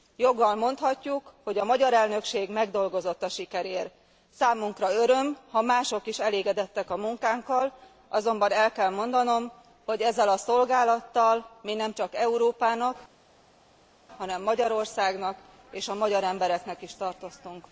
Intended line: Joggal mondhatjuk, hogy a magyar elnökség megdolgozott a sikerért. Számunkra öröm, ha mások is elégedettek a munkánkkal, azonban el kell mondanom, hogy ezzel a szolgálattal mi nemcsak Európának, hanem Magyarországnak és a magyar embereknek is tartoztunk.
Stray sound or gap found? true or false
false